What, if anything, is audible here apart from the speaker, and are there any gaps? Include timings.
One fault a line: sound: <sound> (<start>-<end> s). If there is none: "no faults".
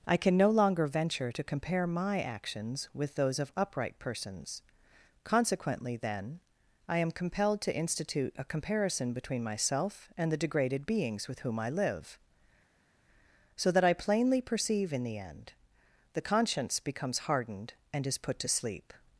no faults